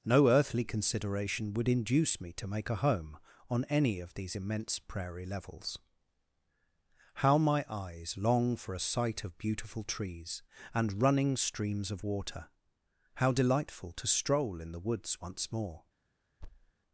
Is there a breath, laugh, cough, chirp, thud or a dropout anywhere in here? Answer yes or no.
yes